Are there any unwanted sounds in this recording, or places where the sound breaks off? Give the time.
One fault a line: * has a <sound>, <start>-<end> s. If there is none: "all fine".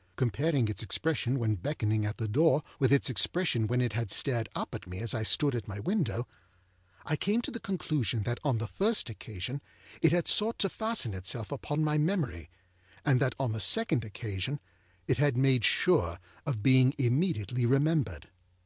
all fine